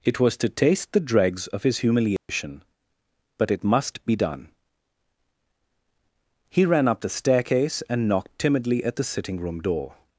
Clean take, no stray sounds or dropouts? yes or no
no